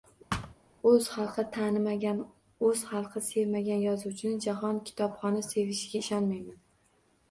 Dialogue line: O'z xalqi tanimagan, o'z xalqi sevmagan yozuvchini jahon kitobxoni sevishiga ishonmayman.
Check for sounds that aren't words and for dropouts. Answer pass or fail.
fail